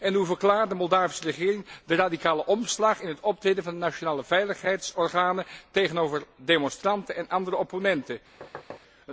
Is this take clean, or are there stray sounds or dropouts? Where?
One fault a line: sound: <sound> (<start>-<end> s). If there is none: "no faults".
sound: thud (8.4-8.8 s)